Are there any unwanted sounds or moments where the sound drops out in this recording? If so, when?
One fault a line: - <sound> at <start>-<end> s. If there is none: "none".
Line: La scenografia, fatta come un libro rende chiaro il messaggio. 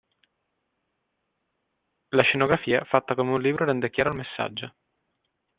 none